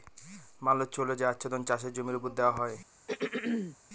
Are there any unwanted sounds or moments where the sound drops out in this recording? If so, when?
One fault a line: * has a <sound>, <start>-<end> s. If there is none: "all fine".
* has a throat clearing, 3.1-3.8 s